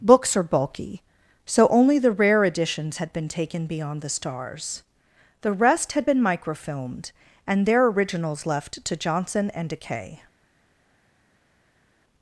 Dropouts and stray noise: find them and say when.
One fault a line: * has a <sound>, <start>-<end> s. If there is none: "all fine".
all fine